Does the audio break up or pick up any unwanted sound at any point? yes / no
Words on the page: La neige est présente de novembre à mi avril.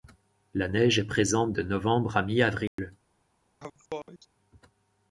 yes